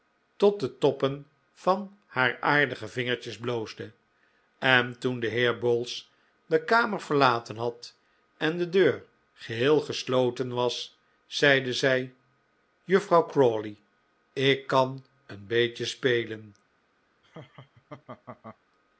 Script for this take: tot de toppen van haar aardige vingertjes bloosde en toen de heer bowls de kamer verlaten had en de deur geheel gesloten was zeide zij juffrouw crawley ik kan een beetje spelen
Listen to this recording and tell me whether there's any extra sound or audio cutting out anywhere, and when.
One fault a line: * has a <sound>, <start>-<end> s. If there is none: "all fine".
* has a laugh, 17.2-18.6 s